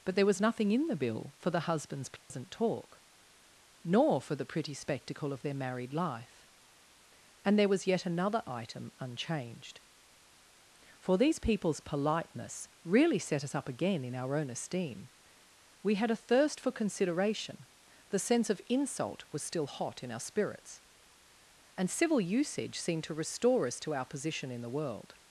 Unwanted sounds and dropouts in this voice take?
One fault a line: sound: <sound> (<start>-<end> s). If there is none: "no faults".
sound: dropout (2.2-2.3 s)